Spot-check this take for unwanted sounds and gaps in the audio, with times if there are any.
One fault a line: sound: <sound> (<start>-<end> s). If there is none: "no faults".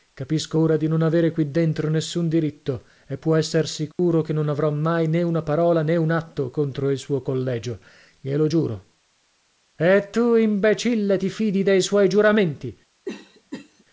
sound: dropout (3.9-4.0 s)
sound: cough (13.1-13.8 s)